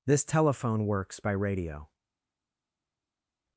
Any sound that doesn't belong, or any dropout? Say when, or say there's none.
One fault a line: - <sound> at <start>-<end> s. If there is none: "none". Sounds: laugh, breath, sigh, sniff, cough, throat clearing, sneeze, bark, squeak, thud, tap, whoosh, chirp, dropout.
none